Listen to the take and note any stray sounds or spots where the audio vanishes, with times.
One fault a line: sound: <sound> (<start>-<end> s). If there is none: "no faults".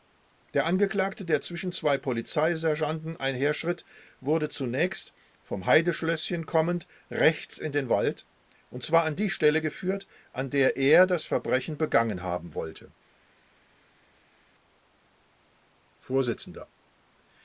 no faults